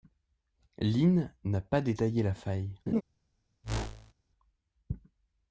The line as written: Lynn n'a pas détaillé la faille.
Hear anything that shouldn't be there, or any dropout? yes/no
yes